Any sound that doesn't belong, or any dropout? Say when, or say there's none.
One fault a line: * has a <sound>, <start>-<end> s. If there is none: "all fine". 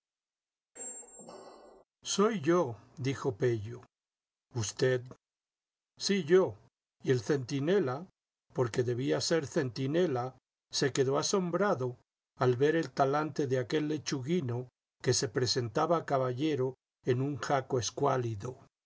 * has a squeak, 0.8-1.8 s